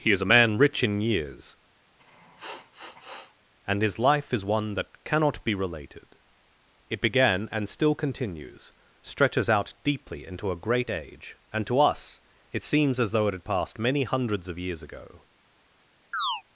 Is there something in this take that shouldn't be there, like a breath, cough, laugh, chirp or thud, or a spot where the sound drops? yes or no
yes